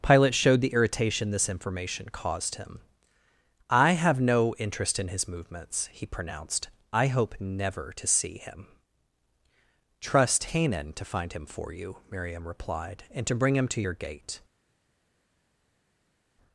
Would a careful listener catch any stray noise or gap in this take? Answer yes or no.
no